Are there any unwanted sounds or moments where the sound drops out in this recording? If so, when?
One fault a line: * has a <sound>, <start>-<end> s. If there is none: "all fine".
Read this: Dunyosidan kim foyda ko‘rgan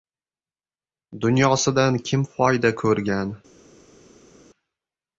all fine